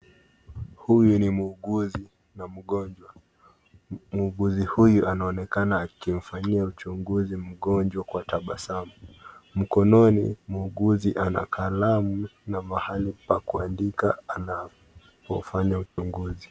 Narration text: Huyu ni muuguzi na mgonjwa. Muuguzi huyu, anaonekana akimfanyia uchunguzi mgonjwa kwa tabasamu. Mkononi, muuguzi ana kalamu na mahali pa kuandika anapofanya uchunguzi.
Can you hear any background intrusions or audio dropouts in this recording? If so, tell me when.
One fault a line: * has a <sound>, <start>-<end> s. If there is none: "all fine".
* has a dropout, 15.9-16.0 s